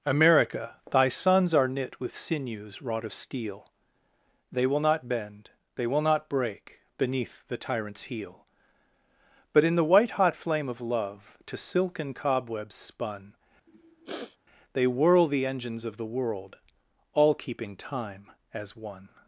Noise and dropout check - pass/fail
fail